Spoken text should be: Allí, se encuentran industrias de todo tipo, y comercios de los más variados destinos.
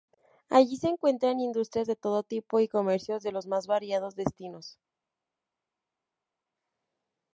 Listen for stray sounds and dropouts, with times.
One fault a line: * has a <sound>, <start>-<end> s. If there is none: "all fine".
all fine